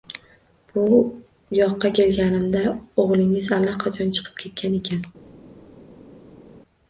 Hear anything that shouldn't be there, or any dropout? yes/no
no